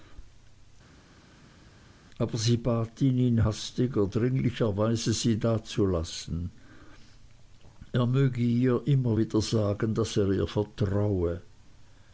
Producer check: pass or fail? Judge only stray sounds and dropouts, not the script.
pass